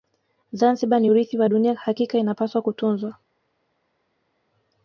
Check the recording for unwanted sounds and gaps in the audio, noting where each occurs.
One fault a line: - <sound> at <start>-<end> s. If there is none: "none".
none